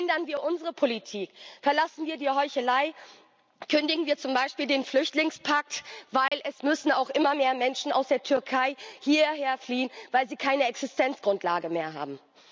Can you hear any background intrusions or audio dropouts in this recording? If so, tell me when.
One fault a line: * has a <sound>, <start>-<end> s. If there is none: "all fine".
* has a dropout, 6.3-6.3 s